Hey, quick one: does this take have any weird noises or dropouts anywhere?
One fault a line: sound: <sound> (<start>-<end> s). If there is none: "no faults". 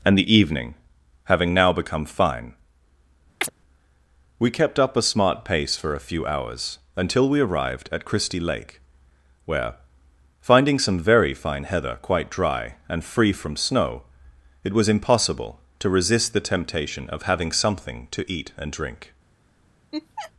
sound: chirp (3.4-3.5 s)
sound: laugh (19.9-20.3 s)